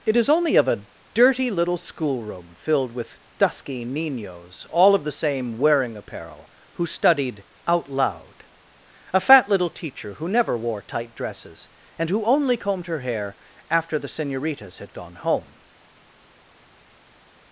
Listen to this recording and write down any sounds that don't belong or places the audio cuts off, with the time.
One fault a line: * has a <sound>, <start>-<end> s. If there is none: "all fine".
all fine